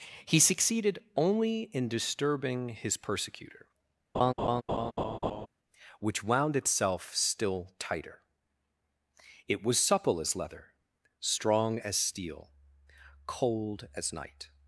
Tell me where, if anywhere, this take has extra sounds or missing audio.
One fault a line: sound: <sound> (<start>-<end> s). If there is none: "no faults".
sound: laugh (4.1-5.5 s)